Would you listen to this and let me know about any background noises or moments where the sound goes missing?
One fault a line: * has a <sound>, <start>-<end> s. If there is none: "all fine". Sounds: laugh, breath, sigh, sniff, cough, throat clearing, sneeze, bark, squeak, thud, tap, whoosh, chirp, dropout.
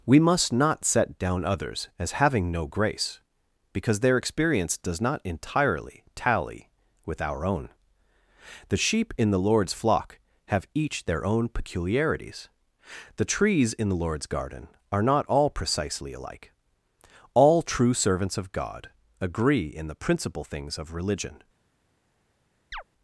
* has a chirp, 22.7-22.8 s